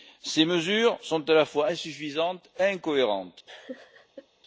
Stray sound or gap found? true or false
true